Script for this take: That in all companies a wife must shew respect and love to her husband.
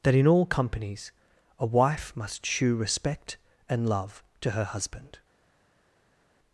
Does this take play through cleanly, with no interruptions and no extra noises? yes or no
yes